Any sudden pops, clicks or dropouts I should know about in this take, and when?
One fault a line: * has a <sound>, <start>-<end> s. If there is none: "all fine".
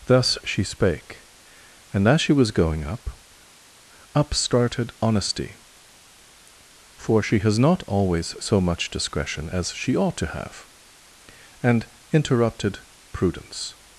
all fine